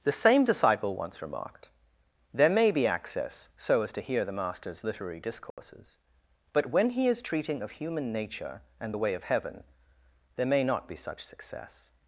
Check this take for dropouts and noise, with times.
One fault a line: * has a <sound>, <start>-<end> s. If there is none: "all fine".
* has a dropout, 5.5-5.6 s